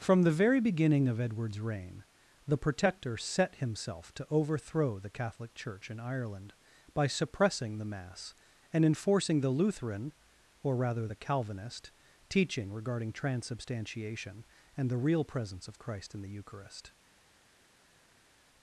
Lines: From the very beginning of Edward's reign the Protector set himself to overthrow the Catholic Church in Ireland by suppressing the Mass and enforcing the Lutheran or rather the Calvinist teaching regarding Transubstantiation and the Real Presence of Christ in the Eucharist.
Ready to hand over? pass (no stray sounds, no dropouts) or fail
pass